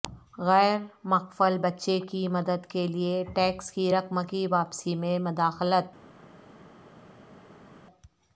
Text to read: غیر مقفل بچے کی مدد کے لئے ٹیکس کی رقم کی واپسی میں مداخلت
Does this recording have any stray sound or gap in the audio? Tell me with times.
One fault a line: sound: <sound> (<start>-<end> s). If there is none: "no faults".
no faults